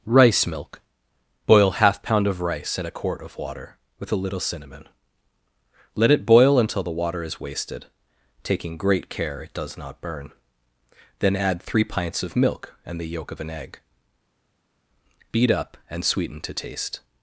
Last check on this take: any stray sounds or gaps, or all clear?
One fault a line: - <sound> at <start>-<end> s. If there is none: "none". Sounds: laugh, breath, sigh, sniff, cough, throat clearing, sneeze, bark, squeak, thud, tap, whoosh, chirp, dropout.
none